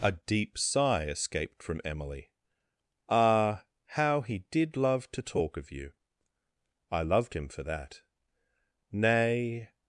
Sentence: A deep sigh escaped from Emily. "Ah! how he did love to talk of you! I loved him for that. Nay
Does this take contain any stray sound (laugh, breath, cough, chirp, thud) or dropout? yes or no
no